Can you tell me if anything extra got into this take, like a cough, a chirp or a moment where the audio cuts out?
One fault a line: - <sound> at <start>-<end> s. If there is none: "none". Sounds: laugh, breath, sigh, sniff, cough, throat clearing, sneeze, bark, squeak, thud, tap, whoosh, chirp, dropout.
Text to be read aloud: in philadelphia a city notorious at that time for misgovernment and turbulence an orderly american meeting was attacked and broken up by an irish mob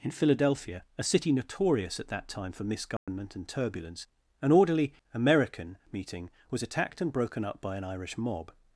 - dropout at 3.0-3.1 s